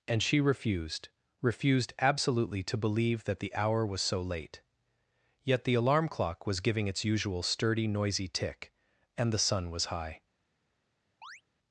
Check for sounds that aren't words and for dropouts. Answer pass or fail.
fail